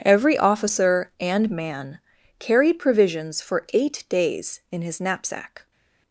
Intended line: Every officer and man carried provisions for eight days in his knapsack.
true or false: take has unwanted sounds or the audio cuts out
false